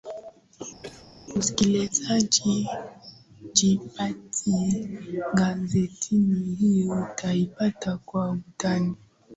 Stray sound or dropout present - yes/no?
yes